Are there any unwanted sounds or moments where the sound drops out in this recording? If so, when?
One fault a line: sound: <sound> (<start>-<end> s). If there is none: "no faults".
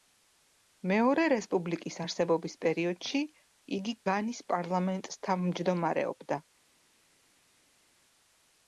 no faults